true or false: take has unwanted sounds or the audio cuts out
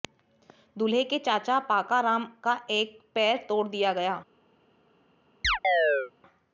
true